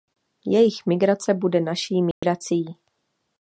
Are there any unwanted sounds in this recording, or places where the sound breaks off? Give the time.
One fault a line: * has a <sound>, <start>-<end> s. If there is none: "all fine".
* has a dropout, 2.1-2.2 s